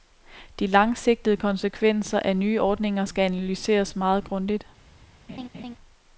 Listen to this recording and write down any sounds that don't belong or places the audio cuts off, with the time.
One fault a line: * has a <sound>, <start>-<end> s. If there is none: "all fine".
* has a laugh, 5.3-5.8 s